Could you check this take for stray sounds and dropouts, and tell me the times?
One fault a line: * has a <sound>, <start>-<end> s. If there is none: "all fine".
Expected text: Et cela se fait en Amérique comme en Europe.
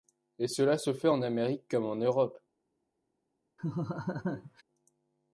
* has a laugh, 3.6-4.6 s